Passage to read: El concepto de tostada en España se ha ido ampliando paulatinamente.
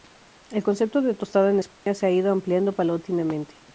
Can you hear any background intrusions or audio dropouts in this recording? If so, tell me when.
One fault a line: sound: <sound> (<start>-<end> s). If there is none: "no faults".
sound: dropout (1.7-1.9 s)